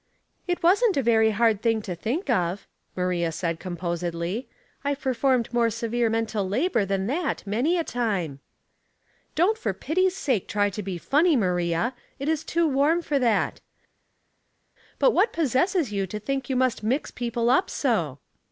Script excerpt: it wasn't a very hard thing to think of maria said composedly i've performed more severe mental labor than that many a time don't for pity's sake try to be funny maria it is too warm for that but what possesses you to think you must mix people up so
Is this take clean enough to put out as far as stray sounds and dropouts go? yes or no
yes